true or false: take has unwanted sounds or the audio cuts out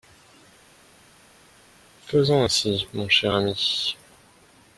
false